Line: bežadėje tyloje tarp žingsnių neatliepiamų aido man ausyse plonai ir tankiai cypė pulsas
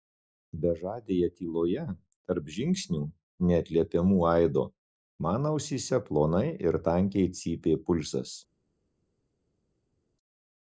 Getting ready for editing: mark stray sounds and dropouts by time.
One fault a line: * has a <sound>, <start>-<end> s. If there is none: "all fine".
all fine